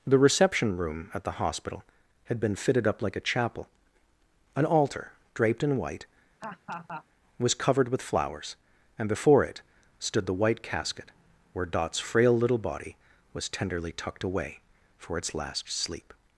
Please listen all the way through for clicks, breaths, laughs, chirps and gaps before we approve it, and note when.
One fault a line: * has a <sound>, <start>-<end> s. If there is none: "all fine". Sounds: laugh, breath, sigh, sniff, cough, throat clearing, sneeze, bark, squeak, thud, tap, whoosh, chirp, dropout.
* has a laugh, 6.4-7.1 s